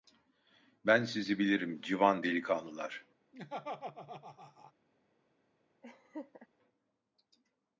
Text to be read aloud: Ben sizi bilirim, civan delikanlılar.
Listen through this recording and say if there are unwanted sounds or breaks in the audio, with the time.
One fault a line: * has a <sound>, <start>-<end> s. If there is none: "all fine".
* has a laugh, 3.3-4.7 s
* has a laugh, 5.8-6.5 s